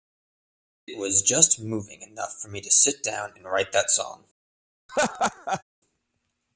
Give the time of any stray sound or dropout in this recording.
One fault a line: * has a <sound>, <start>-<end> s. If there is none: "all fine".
* has a laugh, 4.9-5.6 s